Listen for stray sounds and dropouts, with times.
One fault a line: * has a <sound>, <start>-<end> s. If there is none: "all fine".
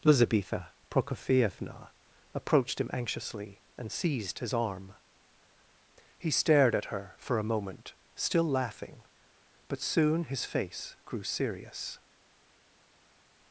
all fine